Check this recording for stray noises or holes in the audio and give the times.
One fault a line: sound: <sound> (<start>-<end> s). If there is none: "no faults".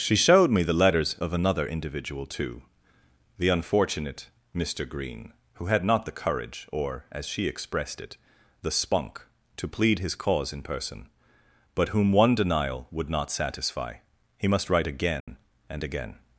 sound: dropout (15.2-15.3 s)